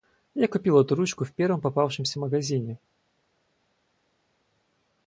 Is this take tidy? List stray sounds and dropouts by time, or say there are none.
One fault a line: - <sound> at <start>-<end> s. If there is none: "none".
none